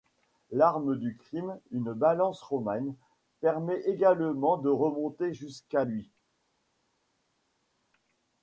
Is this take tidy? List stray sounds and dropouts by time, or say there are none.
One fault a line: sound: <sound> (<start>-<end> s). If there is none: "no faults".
no faults